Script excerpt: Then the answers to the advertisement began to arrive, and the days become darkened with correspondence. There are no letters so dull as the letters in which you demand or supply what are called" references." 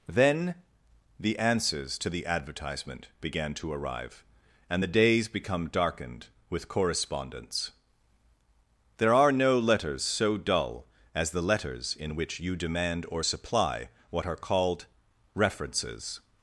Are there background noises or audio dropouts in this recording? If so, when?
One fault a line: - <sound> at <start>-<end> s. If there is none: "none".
none